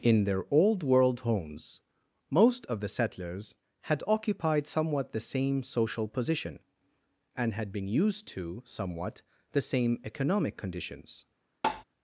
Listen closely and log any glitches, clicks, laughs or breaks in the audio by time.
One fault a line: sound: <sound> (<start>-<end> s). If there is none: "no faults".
sound: tap (11.6-11.8 s)